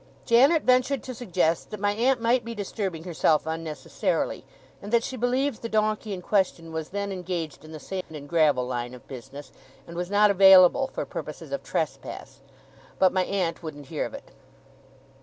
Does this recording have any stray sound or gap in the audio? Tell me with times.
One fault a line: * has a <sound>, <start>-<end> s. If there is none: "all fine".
* has a dropout, 8.0-8.1 s